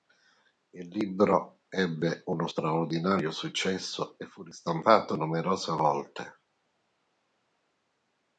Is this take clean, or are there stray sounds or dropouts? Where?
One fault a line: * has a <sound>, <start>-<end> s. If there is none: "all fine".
all fine